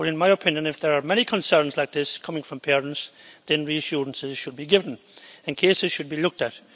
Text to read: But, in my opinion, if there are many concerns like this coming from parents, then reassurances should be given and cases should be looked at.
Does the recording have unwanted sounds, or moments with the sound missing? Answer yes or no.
no